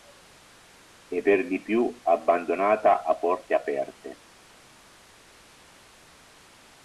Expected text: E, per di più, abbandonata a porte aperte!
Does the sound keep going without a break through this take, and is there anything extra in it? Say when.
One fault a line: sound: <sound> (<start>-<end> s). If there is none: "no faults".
no faults